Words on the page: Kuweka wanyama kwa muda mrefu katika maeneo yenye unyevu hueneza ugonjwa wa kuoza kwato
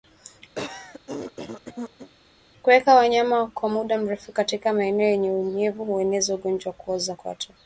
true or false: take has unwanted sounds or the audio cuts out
true